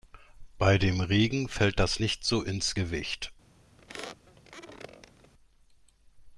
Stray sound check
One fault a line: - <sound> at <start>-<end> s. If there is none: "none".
- squeak at 3.8-5.3 s